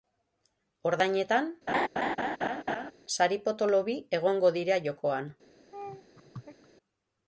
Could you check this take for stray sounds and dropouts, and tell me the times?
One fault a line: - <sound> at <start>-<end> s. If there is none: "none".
- laugh at 1.7-2.9 s
- laugh at 5.7-6.7 s